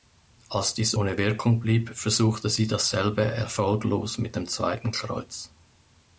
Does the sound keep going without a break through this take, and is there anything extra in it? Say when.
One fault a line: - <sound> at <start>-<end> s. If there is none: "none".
none